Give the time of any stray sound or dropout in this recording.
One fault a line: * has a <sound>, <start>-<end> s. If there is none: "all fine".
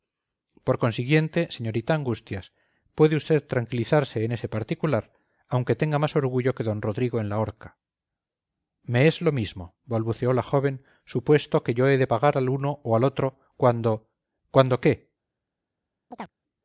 * has a chirp, 16.1-16.3 s